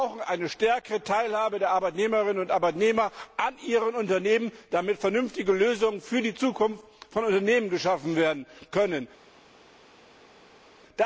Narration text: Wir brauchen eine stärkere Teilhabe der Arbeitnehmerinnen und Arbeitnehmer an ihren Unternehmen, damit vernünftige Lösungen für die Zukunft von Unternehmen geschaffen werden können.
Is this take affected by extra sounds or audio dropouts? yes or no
no